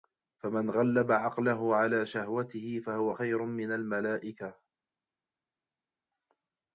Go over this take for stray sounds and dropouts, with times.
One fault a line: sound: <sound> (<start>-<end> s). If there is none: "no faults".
no faults